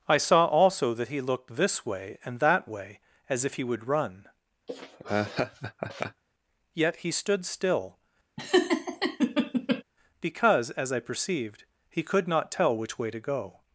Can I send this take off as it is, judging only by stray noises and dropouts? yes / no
no